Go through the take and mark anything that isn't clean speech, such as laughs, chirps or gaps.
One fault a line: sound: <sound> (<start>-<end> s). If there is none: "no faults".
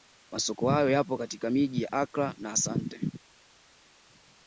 no faults